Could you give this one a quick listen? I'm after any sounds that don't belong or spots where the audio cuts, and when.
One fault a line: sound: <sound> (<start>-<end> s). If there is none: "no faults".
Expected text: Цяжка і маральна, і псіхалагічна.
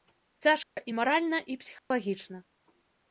sound: dropout (0.6-0.8 s)
sound: dropout (1.8-1.9 s)